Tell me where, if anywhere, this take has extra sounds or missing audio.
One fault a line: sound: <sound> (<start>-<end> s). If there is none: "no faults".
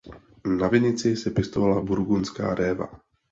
no faults